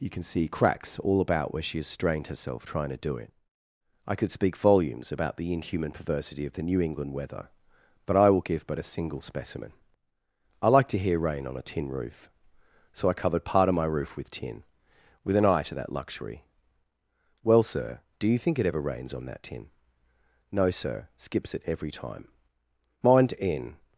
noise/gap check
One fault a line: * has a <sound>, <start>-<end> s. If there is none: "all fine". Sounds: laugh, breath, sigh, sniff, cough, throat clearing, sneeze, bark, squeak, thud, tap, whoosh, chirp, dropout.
all fine